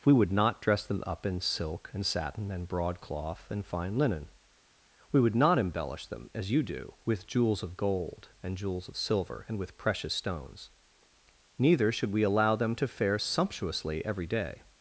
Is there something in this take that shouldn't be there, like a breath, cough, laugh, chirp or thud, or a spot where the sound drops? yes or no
no